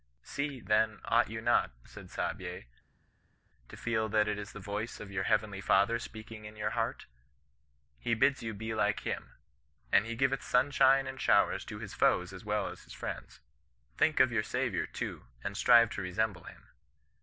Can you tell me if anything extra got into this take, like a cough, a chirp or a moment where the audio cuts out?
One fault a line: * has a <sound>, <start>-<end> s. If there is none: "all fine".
all fine